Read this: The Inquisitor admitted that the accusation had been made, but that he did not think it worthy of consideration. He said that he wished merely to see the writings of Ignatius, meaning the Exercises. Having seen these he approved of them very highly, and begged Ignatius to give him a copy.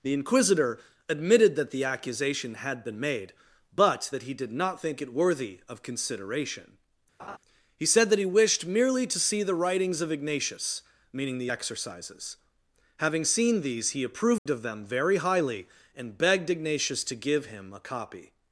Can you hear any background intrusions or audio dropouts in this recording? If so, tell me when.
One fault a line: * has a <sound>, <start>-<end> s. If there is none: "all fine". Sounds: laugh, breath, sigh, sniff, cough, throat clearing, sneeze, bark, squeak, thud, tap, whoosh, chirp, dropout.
* has a laugh, 7.2-7.4 s
* has a dropout, 14.4-14.5 s